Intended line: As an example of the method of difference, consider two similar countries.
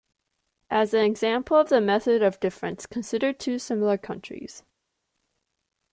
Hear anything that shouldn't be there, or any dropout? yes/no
no